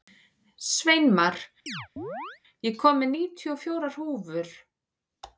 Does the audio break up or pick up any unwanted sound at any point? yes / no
yes